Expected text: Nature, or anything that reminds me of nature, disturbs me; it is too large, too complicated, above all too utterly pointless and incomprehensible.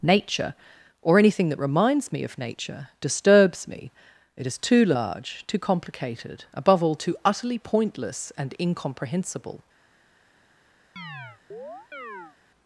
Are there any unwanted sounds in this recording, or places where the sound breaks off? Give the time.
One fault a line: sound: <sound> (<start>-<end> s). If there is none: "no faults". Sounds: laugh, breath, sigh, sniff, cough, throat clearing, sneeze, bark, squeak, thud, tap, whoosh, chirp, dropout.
sound: chirp (11.0-12.4 s)